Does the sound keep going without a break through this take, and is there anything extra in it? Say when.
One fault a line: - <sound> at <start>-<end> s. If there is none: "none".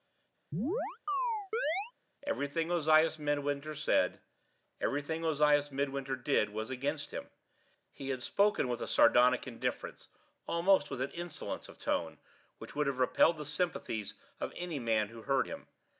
- chirp at 0.5-1.9 s